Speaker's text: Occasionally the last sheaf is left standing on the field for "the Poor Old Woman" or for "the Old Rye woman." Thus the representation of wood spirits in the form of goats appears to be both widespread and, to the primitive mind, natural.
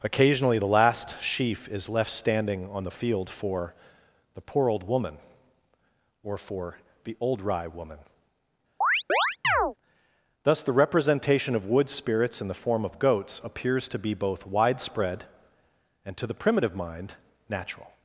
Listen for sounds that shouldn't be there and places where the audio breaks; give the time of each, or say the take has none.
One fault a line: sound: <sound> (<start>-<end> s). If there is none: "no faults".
sound: chirp (8.8-9.7 s)